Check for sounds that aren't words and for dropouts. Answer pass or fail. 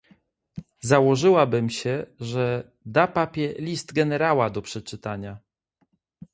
pass